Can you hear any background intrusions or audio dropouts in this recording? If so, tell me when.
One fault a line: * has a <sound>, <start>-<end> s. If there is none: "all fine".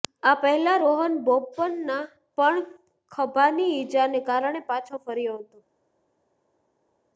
all fine